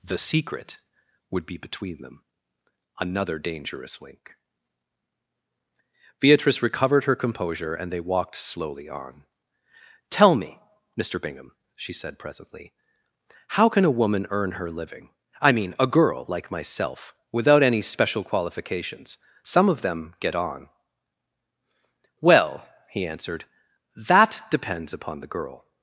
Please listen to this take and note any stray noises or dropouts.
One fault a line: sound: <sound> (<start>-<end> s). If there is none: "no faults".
no faults